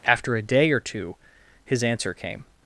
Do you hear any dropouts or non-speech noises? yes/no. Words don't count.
no